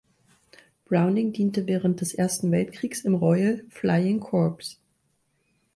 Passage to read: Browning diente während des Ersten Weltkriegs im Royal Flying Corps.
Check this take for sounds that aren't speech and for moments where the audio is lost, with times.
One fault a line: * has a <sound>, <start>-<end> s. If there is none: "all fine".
all fine